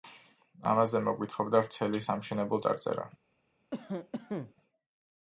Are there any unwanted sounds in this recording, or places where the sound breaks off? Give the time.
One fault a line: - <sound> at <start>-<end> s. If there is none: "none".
- cough at 3.7-4.5 s